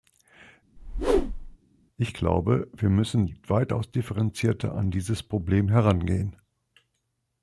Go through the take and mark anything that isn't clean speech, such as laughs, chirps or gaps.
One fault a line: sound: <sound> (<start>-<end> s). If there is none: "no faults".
sound: whoosh (0.8-1.6 s)